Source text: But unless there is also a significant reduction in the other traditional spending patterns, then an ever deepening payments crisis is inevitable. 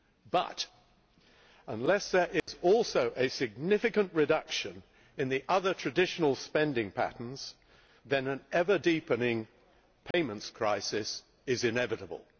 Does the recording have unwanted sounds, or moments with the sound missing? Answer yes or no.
yes